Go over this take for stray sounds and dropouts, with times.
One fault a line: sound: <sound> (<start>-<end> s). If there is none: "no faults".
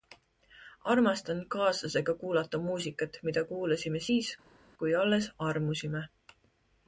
no faults